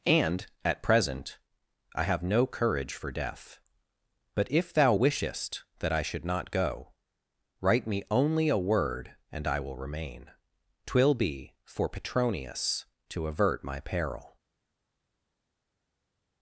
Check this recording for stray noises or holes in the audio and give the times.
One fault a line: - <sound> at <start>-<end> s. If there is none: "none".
none